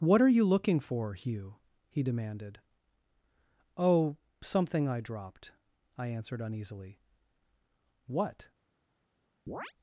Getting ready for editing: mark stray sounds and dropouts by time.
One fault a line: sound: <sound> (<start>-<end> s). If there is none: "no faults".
sound: chirp (9.5-9.7 s)